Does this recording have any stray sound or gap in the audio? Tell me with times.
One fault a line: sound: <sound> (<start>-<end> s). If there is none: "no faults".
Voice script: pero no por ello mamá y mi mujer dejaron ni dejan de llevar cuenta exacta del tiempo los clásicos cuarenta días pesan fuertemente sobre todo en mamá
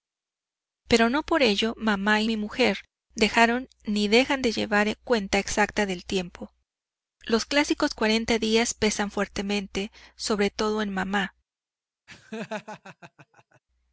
sound: laugh (12.1-13.6 s)